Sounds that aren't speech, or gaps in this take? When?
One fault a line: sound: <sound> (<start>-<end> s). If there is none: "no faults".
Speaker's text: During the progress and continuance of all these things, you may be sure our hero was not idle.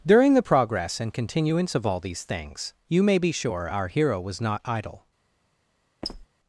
sound: squeak (6.0-6.3 s)